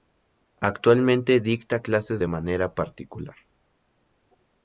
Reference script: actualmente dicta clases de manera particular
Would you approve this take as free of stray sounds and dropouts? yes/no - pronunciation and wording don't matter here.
yes